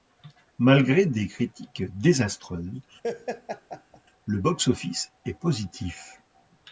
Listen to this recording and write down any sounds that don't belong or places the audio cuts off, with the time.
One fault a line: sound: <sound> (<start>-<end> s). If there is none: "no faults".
sound: laugh (3.0-4.0 s)